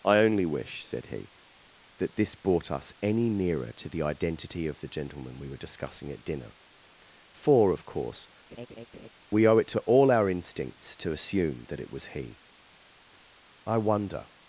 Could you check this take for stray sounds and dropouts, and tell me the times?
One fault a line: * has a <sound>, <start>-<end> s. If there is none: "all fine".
* has a laugh, 8.5-9.1 s